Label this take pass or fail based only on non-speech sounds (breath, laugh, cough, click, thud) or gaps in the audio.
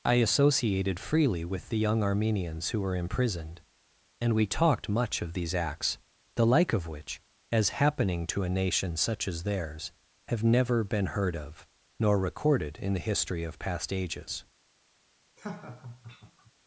fail